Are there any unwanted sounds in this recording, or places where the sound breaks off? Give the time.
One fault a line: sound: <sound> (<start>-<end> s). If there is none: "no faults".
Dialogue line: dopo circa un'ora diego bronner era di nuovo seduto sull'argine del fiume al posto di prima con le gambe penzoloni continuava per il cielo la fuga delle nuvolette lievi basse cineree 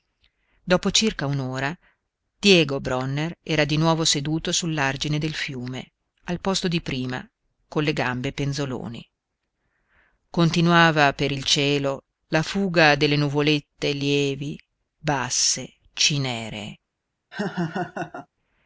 sound: laugh (17.3-18.3 s)